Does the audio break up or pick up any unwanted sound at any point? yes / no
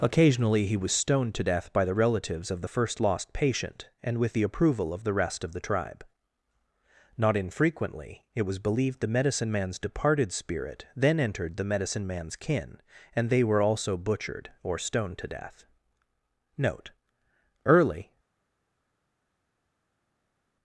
no